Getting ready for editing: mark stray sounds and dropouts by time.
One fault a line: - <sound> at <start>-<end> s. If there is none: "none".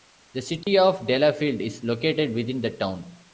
- dropout at 0.6-0.7 s